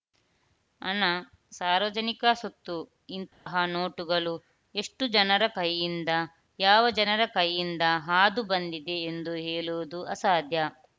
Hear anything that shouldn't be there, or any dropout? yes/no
yes